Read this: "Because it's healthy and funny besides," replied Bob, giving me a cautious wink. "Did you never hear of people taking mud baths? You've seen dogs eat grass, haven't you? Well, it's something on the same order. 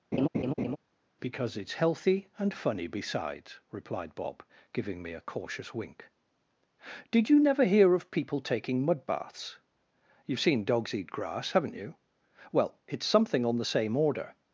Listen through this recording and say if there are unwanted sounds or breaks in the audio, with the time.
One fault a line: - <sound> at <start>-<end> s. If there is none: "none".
- laugh at 0.1-0.8 s